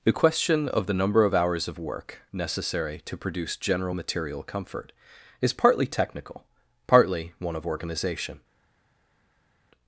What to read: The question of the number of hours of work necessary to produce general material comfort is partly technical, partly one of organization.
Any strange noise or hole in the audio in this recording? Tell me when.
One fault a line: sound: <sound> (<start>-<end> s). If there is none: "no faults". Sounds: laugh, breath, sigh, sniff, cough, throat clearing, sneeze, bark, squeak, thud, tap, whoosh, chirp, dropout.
no faults